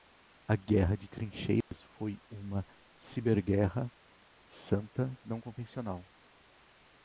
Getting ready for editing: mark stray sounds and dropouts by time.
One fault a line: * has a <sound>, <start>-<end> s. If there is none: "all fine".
* has a dropout, 1.6-1.7 s